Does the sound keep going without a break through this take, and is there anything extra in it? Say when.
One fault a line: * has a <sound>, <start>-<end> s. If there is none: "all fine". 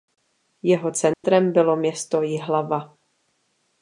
* has a dropout, 1.1-1.2 s